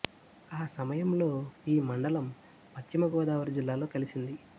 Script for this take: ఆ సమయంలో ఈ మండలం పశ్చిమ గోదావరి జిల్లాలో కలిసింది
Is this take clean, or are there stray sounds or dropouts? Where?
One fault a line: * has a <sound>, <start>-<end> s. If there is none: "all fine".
all fine